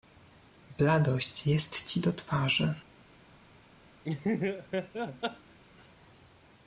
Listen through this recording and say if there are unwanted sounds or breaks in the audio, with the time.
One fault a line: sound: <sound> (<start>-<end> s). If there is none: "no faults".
sound: laugh (4.0-5.6 s)